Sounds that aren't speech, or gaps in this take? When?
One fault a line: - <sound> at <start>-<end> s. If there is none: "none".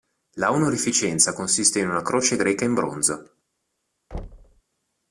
- thud at 4.1-4.6 s